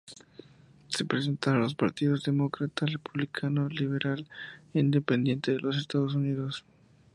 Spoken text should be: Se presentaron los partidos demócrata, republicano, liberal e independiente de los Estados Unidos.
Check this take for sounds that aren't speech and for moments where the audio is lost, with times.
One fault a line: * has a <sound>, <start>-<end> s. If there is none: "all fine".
all fine